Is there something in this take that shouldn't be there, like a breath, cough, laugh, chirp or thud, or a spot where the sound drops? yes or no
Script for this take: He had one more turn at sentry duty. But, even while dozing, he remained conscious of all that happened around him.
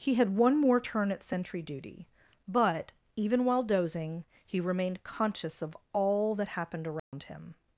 yes